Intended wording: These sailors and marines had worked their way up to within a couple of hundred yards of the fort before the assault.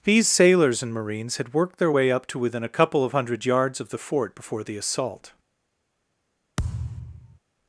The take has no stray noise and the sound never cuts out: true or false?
false